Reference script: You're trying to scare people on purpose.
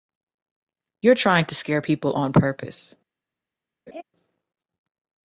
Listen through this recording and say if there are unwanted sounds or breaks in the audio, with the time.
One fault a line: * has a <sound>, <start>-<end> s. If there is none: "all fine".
* has a laugh, 3.9-4.0 s